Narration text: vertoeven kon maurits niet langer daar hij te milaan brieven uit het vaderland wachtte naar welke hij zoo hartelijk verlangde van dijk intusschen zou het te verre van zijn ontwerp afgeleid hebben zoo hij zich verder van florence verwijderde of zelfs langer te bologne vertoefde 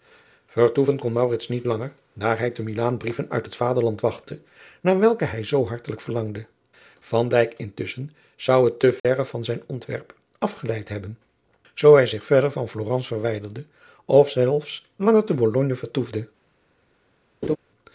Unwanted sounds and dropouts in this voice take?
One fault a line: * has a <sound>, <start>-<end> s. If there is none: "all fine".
* has a dropout, 9.0-9.0 s
* has a laugh, 17.4-17.6 s